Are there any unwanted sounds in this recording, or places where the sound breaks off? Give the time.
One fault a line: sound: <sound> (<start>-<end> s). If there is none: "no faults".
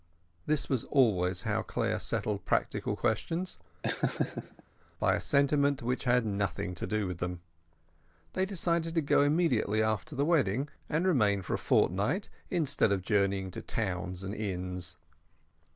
sound: laugh (3.8-4.6 s)